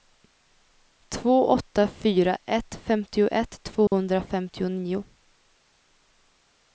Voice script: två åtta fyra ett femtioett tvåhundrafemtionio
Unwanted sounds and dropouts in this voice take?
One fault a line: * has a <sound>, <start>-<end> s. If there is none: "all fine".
* has a dropout, 3.9-3.9 s